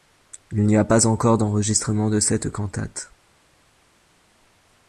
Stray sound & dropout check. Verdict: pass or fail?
pass